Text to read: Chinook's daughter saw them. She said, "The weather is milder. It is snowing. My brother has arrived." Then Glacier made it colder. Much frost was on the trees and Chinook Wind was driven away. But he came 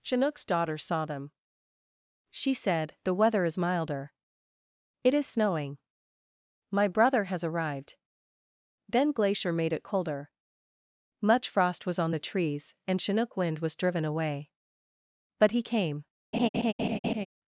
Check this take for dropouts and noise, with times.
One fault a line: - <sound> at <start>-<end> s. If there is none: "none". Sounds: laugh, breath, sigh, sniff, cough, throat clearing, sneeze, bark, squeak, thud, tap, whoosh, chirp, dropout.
- laugh at 16.3-17.3 s